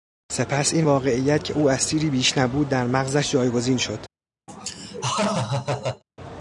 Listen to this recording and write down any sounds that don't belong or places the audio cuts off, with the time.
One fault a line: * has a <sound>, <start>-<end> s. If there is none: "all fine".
* has a laugh, 4.5-6.0 s